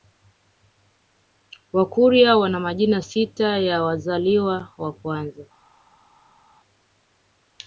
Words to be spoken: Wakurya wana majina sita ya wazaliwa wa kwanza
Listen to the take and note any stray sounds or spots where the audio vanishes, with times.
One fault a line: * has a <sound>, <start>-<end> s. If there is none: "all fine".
all fine